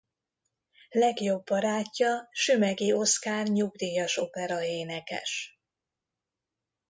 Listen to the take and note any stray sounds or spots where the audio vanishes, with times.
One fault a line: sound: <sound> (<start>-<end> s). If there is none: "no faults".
no faults